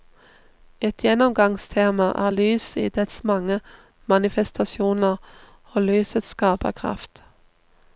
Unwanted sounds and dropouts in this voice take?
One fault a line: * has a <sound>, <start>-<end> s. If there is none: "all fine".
all fine